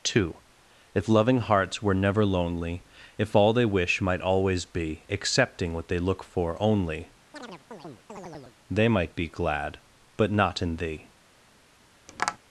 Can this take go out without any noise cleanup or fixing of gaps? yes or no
no